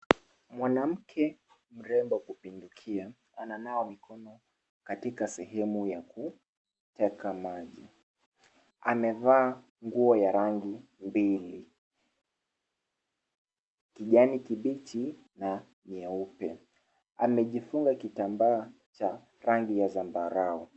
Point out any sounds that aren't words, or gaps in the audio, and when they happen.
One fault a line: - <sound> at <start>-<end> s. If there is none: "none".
none